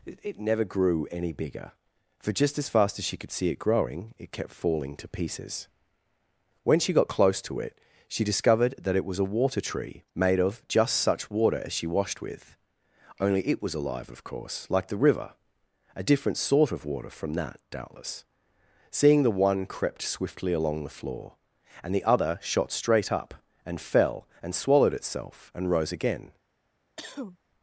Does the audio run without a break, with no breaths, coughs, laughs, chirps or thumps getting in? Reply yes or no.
no